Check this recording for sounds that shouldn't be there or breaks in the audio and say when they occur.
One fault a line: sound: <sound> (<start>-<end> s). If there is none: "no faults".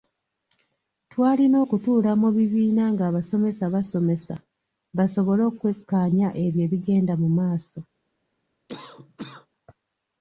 sound: cough (8.7-9.5 s)